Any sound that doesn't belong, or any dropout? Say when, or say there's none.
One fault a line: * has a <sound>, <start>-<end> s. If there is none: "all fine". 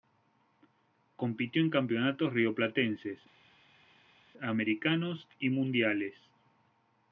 all fine